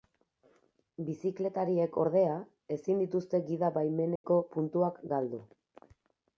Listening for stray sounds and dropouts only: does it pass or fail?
fail